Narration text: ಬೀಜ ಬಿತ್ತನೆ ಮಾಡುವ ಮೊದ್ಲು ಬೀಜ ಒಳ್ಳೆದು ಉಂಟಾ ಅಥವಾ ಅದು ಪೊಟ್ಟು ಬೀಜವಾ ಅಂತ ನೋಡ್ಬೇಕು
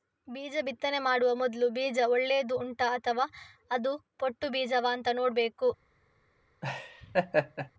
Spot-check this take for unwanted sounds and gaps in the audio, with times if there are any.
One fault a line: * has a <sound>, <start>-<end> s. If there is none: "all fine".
* has a laugh, 6.6-7.7 s